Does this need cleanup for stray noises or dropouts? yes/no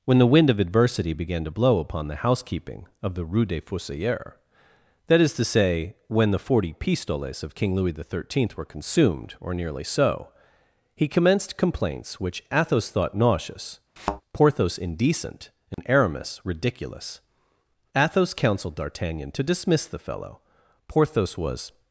yes